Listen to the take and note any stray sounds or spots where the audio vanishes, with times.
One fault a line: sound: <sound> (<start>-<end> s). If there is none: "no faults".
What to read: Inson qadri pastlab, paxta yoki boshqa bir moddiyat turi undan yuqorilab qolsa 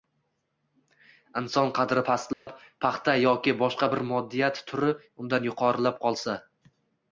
sound: dropout (2.3-2.5 s)